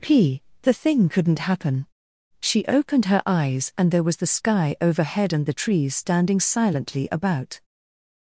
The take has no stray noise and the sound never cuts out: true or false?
true